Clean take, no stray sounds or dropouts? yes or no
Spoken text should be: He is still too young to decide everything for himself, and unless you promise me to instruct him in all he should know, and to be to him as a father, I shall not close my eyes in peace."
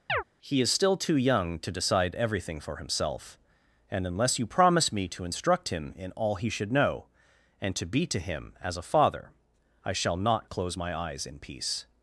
no